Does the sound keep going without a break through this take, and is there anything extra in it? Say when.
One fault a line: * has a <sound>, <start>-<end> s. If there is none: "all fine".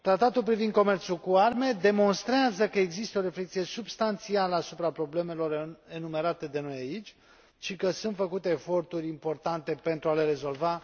all fine